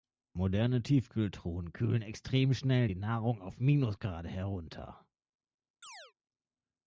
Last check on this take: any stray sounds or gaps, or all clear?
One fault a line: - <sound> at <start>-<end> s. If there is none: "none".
- chirp at 5.8-6.1 s